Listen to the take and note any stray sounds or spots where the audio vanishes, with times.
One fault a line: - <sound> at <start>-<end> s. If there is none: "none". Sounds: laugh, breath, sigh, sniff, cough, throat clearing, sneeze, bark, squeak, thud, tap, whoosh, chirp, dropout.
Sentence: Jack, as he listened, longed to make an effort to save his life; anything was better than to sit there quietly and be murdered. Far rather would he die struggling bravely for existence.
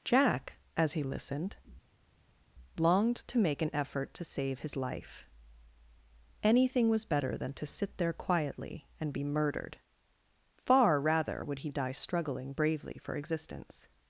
none